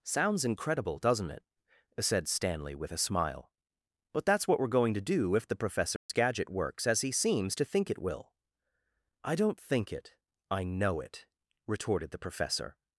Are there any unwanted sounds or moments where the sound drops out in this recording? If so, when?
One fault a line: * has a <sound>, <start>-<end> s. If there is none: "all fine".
* has a dropout, 6.0-6.1 s